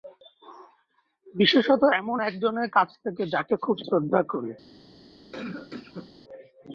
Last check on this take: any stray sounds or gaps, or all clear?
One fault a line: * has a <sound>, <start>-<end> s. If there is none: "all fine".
* has a cough, 5.3-6.1 s